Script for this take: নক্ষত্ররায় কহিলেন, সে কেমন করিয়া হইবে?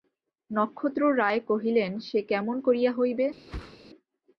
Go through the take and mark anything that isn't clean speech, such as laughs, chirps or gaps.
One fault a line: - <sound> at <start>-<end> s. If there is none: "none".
- whoosh at 3.5-3.8 s